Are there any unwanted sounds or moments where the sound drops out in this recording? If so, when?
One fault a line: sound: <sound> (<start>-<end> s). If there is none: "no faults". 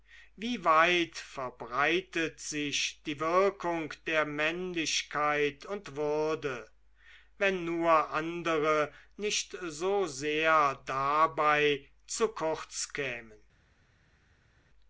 no faults